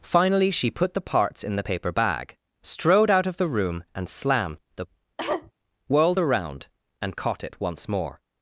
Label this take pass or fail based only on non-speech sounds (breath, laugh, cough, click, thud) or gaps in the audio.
fail